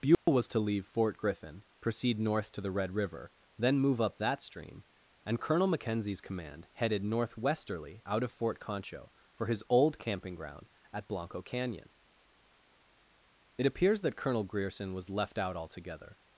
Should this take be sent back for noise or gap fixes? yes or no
yes